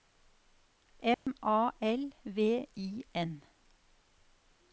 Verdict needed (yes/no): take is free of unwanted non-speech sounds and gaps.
no